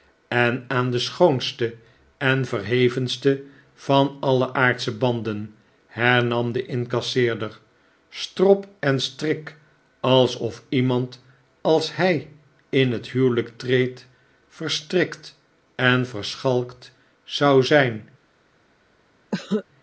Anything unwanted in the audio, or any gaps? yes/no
yes